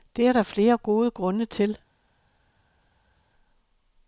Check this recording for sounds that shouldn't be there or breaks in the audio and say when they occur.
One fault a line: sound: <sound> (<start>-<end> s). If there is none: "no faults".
no faults